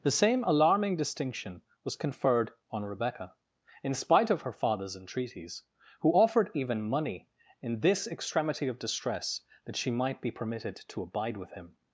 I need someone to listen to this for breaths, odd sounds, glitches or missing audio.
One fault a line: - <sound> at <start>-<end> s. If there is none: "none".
none